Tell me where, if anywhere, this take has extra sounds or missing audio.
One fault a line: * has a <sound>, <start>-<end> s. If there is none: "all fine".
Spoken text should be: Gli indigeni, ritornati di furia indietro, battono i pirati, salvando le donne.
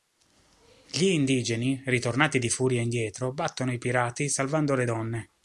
all fine